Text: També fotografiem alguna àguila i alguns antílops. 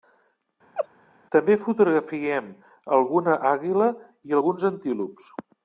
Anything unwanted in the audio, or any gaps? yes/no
yes